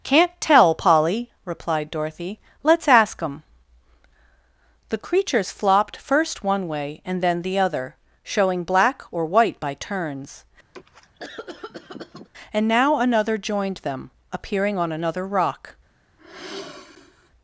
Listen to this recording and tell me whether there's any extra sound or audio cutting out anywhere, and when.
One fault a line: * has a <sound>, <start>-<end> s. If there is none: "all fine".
* has a cough, 10.7-12.3 s
* has a sigh, 16.2-17.3 s